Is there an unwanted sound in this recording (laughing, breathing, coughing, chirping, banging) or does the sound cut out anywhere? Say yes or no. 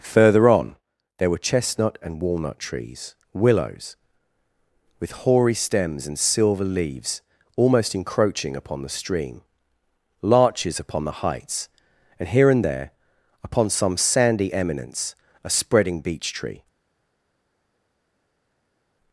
no